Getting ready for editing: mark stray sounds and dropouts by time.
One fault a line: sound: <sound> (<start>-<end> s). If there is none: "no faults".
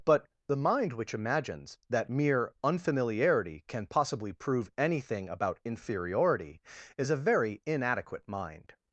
no faults